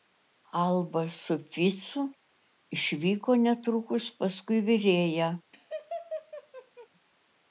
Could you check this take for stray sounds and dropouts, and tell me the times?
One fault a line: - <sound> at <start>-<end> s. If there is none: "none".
- laugh at 5.5-6.9 s